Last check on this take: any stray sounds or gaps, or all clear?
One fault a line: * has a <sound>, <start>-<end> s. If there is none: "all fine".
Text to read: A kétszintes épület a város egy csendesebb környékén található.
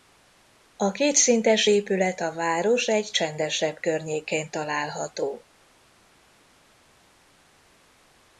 all fine